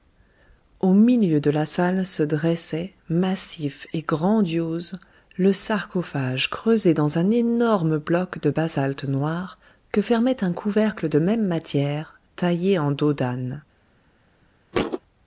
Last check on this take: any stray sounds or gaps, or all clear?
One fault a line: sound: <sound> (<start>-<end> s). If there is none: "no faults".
sound: thud (14.7-15.0 s)